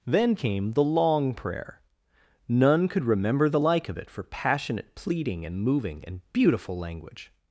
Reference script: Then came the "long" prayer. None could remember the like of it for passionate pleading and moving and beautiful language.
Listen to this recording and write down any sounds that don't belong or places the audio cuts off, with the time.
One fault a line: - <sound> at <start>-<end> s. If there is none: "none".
none